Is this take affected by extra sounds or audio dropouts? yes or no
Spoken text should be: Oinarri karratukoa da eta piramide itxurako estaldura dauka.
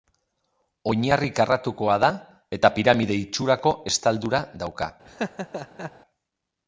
yes